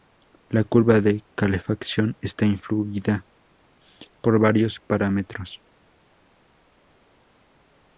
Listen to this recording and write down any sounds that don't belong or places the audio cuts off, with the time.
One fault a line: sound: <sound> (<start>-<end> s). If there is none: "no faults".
no faults